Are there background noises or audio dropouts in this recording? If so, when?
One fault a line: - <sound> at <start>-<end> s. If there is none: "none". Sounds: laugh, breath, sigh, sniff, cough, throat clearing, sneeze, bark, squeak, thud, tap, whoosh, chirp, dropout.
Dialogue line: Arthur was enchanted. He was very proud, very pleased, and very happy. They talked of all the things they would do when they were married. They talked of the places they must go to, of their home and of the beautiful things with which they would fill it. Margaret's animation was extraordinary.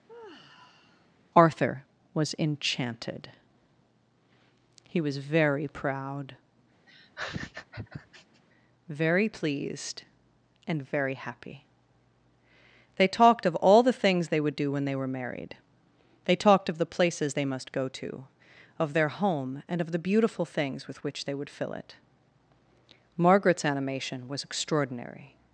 - sigh at 0.1-1.1 s
- laugh at 6.9-8.4 s